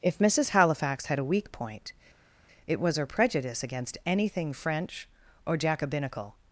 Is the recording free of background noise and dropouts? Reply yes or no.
yes